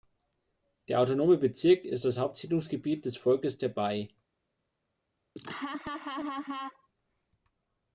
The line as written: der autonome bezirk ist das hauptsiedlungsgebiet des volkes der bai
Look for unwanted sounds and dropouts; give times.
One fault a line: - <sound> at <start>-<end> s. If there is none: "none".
- laugh at 5.4-6.9 s